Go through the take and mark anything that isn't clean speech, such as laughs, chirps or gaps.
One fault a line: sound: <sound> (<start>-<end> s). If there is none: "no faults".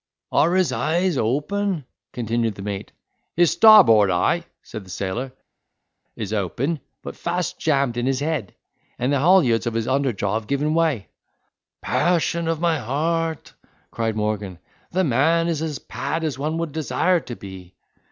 no faults